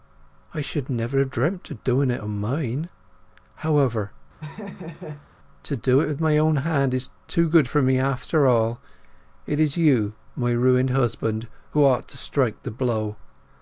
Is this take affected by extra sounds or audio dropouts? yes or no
yes